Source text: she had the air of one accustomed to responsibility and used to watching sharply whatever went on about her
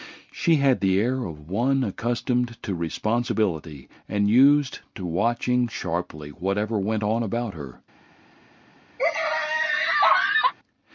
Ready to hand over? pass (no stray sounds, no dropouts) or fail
fail